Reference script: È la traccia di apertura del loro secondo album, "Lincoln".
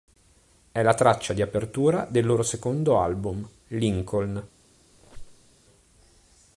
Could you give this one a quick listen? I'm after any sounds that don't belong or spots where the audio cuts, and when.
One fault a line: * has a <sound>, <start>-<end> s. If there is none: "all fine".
* has a squeak, 4.9-5.5 s